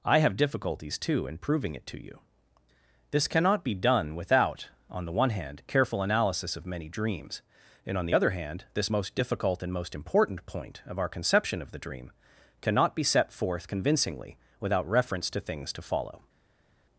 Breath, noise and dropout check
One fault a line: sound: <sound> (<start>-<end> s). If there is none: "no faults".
no faults